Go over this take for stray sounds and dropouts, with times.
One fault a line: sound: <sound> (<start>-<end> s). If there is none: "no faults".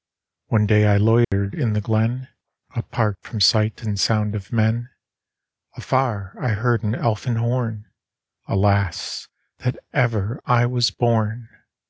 sound: dropout (1.2-1.3 s)